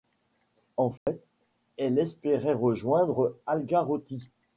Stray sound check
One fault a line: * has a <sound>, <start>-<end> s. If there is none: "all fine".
* has a dropout, 1.0-1.1 s